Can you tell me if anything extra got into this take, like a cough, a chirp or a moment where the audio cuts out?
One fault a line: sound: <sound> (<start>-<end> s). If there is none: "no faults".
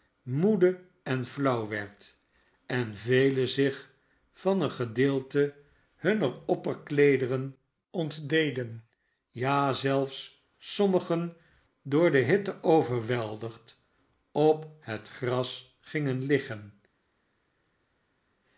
no faults